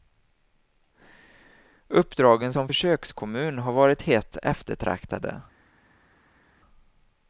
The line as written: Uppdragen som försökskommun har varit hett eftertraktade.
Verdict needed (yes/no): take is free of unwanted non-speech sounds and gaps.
yes